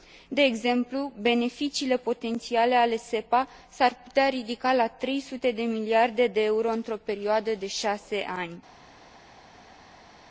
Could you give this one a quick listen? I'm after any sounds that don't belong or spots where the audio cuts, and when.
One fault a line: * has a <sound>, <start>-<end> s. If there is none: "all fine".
all fine